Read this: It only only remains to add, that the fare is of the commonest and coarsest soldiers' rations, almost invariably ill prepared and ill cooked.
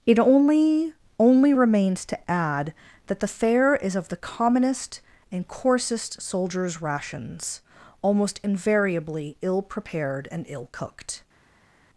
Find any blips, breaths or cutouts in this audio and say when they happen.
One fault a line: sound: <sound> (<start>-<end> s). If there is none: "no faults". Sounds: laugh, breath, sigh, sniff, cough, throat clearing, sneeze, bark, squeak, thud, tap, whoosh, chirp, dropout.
no faults